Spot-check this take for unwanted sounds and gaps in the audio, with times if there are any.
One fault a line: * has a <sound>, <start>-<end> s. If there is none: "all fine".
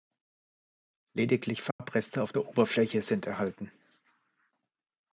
* has a dropout, 1.7-1.8 s